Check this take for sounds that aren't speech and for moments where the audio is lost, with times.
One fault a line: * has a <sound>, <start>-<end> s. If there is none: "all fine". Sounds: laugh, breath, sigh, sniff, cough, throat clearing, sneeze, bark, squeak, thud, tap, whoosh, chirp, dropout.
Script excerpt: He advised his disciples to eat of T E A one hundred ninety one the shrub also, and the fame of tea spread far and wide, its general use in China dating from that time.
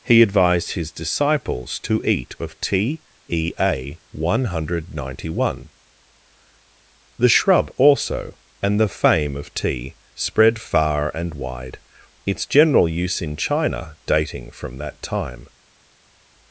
all fine